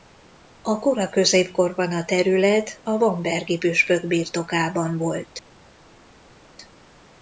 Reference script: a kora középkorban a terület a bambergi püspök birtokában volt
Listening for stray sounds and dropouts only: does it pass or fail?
pass